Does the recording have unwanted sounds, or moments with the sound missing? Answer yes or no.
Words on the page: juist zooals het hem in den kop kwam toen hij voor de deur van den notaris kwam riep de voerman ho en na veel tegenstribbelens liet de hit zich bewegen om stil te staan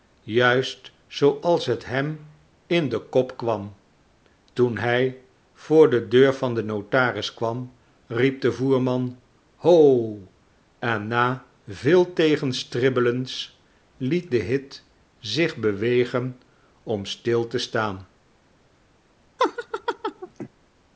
yes